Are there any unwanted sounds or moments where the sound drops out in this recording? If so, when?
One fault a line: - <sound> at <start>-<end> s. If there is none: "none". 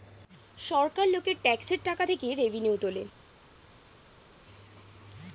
none